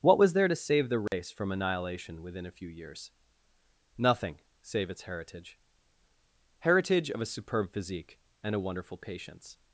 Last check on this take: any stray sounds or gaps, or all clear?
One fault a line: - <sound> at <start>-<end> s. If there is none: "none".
- dropout at 1.1-1.1 s